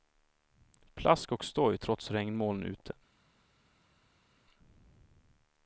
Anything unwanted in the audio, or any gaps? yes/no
no